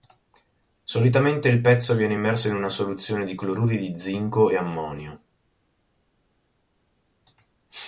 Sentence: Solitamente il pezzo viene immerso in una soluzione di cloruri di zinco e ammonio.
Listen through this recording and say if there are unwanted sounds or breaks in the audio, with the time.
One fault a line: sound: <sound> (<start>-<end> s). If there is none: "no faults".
no faults